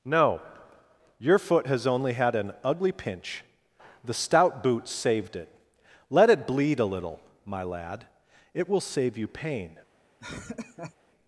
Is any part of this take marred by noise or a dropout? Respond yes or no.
yes